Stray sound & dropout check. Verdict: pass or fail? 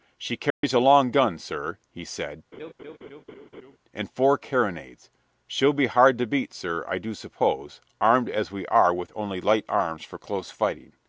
fail